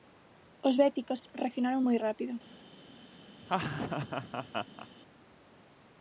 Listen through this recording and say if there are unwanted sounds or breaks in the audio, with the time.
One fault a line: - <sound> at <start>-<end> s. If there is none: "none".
- laugh at 3.4-4.9 s